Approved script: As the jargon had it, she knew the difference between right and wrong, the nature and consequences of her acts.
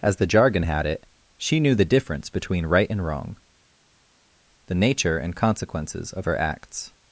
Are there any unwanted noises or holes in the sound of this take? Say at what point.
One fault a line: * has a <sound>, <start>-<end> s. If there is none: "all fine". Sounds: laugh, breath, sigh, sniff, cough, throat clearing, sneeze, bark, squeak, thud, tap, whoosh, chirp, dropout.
all fine